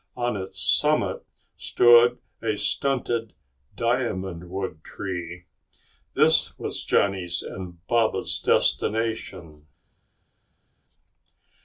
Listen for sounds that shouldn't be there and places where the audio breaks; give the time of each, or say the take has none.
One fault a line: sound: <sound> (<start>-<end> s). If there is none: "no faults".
no faults